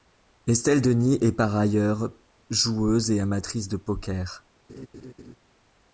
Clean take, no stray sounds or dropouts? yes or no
no